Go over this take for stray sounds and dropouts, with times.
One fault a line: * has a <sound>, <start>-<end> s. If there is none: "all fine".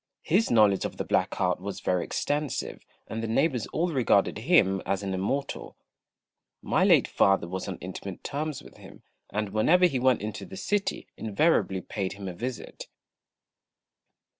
all fine